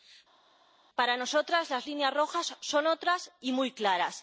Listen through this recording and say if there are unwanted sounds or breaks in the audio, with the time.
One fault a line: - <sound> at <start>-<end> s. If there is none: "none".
none